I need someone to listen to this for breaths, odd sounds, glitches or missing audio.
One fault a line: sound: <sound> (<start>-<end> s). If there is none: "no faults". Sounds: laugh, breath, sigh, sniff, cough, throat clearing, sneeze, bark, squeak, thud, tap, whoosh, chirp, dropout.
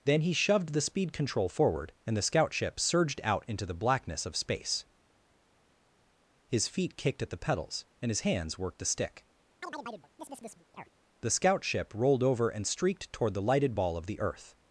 sound: chirp (9.6-10.9 s)